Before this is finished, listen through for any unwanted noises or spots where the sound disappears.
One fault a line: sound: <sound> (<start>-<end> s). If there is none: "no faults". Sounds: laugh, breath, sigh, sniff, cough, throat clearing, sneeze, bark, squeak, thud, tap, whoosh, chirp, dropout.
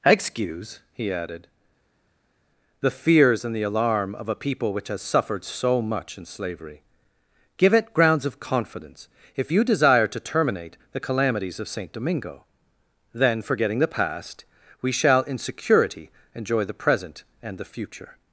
no faults